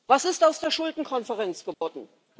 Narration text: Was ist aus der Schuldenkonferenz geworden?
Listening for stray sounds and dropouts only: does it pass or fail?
fail